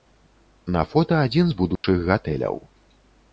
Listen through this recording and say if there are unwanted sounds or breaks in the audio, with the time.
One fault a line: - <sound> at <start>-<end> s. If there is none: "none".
- dropout at 1.8-1.8 s